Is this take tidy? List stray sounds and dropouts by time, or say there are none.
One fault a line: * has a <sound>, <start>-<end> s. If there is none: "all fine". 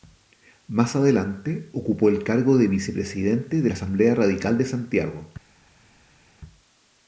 all fine